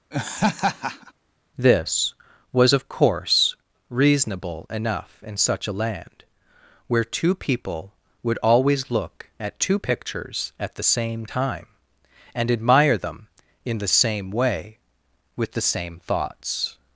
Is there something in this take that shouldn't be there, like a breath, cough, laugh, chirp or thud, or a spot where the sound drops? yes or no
yes